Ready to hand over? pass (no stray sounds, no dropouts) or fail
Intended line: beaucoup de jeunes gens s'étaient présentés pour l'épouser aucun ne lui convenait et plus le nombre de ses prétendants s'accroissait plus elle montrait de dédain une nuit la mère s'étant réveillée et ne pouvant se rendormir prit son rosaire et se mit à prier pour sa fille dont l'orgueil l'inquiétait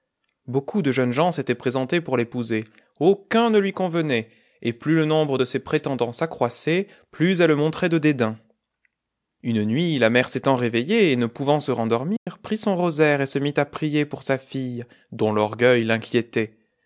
fail